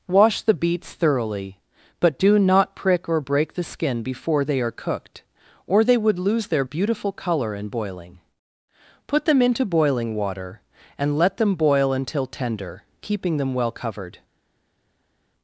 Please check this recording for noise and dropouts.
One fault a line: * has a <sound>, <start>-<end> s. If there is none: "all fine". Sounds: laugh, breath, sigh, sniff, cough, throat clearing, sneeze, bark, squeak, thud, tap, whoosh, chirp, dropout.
all fine